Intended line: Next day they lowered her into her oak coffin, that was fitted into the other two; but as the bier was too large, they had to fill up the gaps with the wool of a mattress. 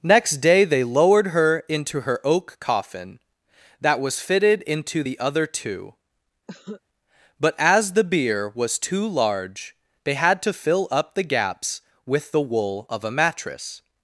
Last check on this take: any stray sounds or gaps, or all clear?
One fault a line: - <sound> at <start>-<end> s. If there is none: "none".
- cough at 6.5-6.8 s